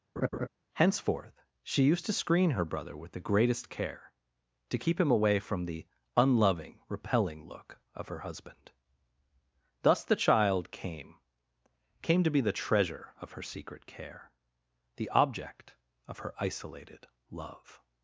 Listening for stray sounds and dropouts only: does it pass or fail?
fail